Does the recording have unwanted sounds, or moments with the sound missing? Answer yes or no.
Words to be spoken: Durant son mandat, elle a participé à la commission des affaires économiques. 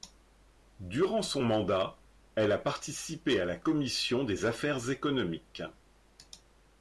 no